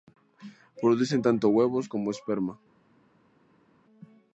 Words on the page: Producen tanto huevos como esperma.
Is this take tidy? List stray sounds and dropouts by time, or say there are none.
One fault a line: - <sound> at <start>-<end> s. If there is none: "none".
none